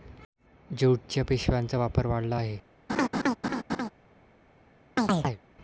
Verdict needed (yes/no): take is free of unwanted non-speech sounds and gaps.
no